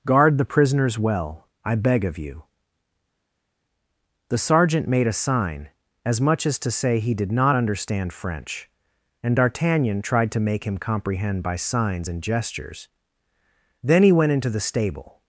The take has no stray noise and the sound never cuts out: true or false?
true